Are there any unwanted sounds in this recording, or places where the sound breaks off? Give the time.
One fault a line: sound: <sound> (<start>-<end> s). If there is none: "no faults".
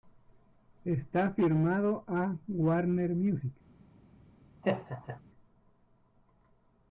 sound: laugh (4.6-5.2 s)